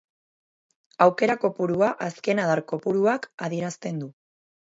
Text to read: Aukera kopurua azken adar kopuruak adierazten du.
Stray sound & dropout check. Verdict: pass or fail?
pass